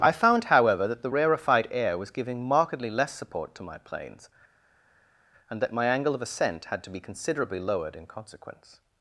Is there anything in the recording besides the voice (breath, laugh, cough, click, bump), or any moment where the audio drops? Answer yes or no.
no